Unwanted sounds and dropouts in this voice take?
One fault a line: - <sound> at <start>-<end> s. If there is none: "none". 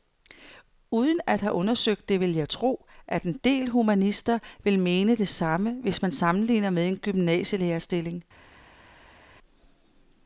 none